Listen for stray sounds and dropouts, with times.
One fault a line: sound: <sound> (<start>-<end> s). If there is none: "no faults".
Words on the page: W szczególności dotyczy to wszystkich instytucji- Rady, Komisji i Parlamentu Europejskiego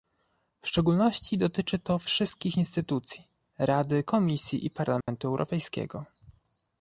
sound: dropout (5.0-5.1 s)